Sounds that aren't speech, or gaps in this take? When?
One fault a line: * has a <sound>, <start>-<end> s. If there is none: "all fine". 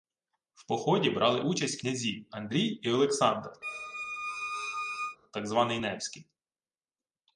* has a squeak, 3.6-5.2 s